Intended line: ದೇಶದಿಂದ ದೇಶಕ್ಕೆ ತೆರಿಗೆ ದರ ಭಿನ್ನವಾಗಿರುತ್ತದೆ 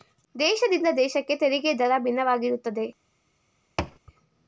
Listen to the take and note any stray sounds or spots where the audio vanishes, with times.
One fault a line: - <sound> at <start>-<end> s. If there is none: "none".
- thud at 3.8-4.0 s